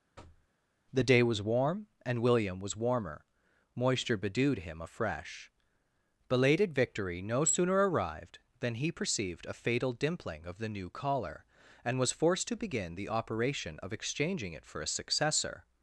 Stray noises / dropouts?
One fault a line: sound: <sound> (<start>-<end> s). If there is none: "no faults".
sound: thud (0.2-0.5 s)